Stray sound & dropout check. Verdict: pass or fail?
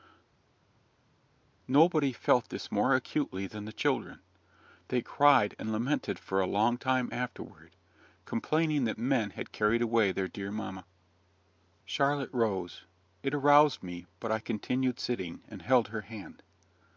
pass